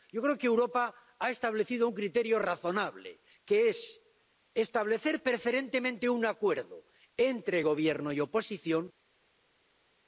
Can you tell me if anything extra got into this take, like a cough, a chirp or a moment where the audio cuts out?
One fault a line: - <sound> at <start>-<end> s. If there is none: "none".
none